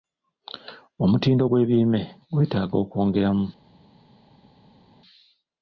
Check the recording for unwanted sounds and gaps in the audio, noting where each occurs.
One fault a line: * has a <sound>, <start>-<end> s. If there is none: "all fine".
all fine